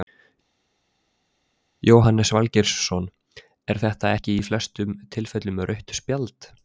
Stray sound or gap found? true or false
false